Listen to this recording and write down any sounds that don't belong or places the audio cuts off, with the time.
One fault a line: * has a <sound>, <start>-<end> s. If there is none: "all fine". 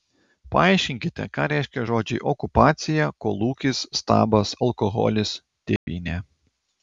* has a dropout, 5.8-5.9 s